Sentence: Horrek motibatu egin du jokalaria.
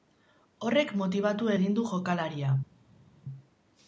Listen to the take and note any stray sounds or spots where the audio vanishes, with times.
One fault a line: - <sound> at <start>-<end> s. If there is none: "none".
none